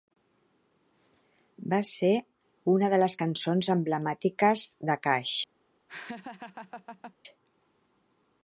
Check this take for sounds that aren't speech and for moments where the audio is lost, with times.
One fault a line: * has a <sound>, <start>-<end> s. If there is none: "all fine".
* has a laugh, 5.9-7.1 s